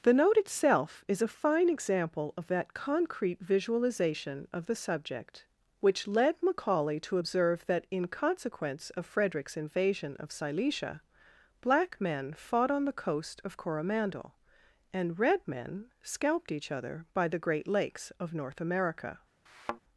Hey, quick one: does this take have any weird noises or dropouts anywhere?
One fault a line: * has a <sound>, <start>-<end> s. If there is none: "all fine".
* has a thud, 19.5-19.8 s